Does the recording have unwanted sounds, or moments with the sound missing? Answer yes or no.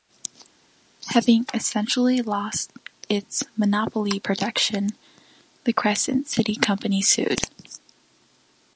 no